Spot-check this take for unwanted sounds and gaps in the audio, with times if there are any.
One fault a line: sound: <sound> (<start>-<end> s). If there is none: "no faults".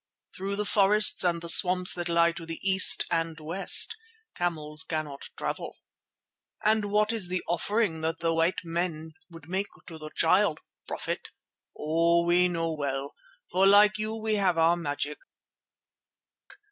no faults